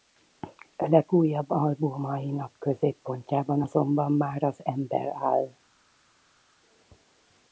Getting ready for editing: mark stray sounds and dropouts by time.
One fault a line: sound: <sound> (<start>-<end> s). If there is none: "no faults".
no faults